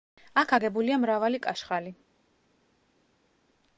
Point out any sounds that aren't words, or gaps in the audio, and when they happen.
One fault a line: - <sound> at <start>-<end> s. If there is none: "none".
none